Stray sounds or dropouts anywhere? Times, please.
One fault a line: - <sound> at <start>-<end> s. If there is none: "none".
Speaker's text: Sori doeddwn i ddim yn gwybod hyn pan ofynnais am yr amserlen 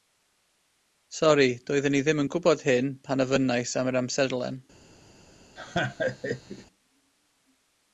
- laugh at 5.6-6.7 s